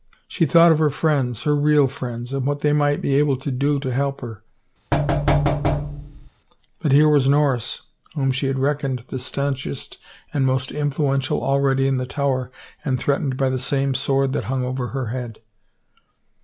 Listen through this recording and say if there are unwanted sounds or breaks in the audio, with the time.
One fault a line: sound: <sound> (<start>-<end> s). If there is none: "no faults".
sound: thud (4.9-6.3 s)